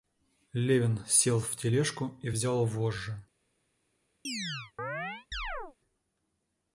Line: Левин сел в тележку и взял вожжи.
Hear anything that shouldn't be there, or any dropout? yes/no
yes